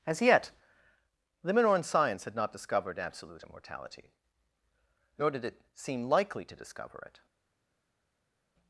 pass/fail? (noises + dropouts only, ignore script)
pass